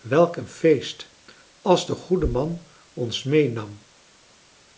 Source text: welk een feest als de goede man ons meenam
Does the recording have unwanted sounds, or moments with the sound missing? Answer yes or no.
no